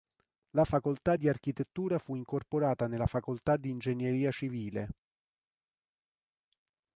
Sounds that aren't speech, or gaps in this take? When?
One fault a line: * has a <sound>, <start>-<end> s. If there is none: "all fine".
all fine